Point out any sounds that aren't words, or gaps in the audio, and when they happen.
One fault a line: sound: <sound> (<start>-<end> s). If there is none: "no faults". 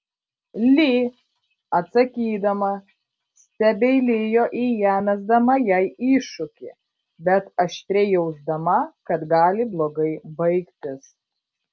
no faults